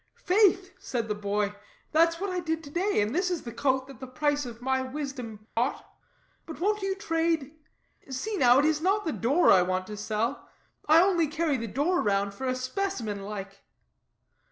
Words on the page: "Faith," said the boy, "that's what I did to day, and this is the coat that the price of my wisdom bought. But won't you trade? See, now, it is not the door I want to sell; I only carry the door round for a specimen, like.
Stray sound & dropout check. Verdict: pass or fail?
fail